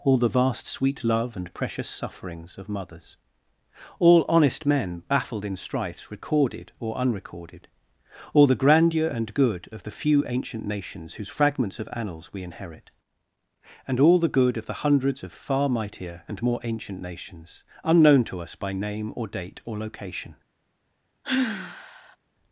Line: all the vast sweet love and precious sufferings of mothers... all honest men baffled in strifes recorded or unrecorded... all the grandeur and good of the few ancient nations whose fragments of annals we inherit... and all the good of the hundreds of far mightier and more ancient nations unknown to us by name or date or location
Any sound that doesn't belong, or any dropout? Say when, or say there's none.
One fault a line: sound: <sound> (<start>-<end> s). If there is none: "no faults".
sound: sigh (21.2-22.2 s)